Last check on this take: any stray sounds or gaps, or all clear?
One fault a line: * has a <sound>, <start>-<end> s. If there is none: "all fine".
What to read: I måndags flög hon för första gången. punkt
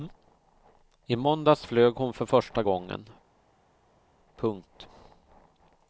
all fine